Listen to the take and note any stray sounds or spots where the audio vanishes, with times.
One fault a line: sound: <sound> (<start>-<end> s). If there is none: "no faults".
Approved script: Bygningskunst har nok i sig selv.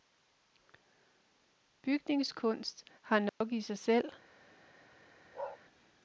sound: dropout (3.3-3.4 s)
sound: bark (5.3-5.6 s)